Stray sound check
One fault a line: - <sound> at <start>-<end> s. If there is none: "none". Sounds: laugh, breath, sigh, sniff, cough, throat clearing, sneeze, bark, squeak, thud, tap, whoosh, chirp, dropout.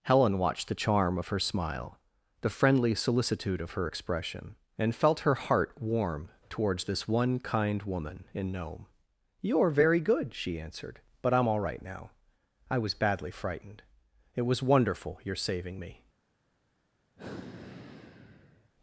- sigh at 17.2-18.7 s